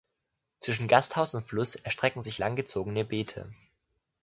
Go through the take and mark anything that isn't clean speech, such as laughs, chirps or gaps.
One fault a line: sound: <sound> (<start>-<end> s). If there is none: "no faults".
no faults